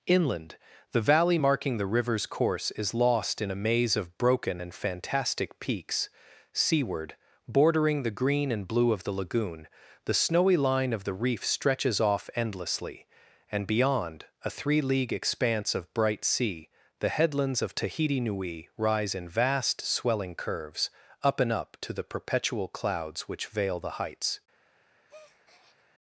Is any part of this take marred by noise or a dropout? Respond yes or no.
yes